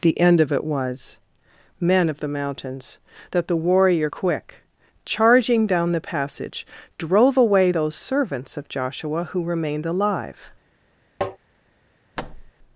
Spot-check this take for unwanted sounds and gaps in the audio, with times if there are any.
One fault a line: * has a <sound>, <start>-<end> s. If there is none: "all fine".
* has a tap, 11.2-11.4 s
* has a thud, 12.2-12.5 s